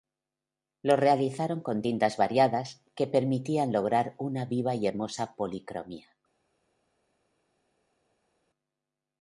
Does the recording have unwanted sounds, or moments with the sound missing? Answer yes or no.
no